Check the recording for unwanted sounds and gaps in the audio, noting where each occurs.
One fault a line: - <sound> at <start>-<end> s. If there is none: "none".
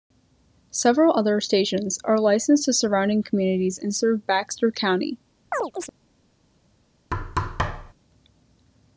- chirp at 5.5-5.9 s
- thud at 7.1-7.9 s